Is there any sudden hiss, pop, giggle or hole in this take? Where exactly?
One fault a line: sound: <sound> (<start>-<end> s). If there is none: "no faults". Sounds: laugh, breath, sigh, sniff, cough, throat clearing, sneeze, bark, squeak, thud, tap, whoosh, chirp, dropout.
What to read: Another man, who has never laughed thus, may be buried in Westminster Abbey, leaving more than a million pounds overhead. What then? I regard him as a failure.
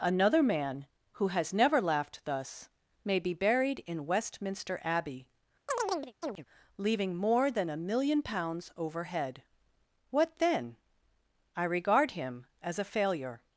sound: chirp (5.7-6.5 s)